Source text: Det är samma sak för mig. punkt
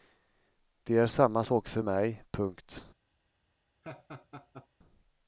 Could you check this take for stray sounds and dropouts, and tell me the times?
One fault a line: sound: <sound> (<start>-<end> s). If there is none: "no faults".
sound: laugh (3.8-4.7 s)